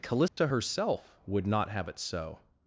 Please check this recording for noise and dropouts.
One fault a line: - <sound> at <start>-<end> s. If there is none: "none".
- dropout at 0.3-0.4 s